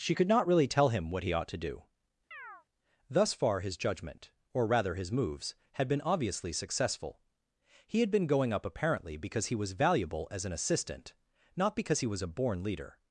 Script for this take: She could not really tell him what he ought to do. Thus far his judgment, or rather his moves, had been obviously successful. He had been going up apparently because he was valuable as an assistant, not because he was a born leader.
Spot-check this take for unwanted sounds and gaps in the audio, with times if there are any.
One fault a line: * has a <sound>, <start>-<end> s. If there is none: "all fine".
* has a chirp, 2.3-2.7 s